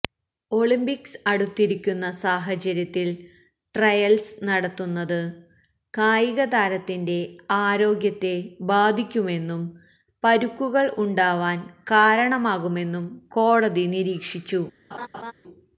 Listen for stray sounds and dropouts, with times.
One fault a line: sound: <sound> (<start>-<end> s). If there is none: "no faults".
sound: laugh (14.9-15.3 s)